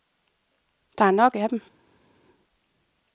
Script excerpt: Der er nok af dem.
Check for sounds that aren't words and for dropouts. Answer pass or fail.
pass